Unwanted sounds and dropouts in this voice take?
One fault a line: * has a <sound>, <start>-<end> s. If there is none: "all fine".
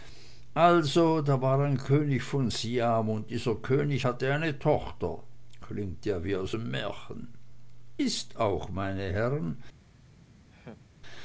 * has a laugh, 10.5-10.8 s